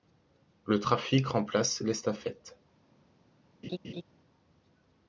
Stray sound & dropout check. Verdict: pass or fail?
fail